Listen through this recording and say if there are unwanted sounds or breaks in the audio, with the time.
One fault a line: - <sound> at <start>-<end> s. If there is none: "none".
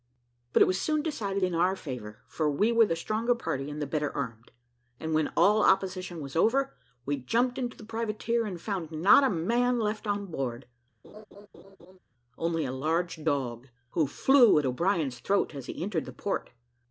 - laugh at 11.0-12.0 s